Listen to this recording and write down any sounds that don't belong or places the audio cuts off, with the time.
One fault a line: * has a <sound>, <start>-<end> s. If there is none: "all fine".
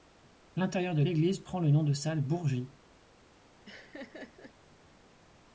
* has a laugh, 3.6-4.5 s